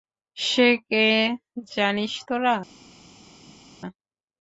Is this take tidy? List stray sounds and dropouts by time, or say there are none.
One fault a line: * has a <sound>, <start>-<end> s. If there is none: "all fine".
all fine